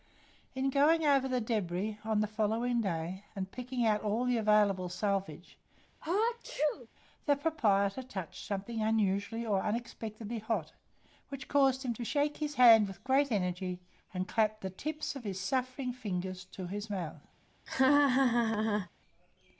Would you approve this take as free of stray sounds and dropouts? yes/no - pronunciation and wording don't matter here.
no